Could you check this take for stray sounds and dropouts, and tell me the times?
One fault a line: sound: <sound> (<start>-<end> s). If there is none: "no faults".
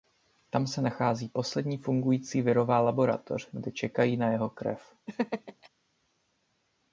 sound: laugh (5.1-5.7 s)